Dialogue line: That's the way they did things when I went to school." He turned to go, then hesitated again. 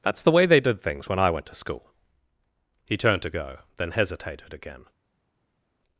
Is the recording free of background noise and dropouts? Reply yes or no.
yes